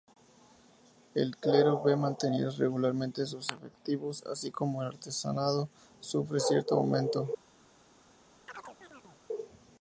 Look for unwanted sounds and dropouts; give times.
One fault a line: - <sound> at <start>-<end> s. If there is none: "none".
- chirp at 8.5-9.2 s